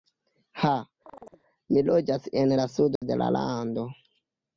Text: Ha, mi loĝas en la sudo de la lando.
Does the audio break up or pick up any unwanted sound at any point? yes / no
yes